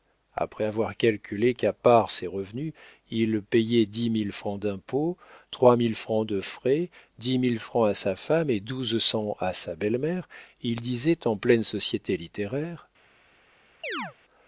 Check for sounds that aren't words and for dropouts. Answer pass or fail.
fail